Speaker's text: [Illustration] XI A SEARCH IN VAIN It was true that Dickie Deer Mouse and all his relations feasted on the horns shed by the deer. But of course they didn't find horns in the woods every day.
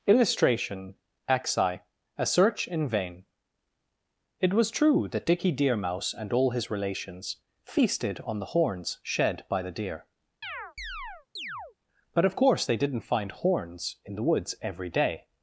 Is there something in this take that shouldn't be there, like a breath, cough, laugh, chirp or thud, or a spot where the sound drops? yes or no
yes